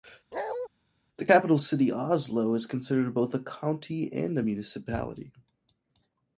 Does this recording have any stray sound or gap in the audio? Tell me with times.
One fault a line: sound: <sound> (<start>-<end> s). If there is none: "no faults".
sound: bark (0.3-0.7 s)